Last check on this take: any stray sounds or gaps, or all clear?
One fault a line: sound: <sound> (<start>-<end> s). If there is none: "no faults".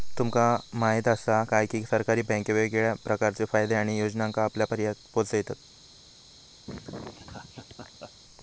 sound: laugh (6.7-8.1 s)